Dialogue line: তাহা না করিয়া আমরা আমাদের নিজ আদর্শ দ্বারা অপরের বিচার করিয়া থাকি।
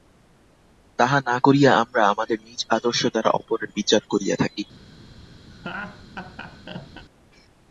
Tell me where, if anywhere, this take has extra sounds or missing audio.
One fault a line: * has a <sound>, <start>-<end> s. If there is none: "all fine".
* has a laugh, 5.5-7.0 s